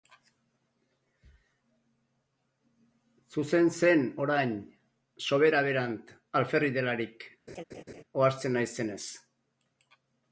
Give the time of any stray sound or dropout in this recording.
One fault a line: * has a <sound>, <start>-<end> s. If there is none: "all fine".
* has a laugh, 7.5-8.0 s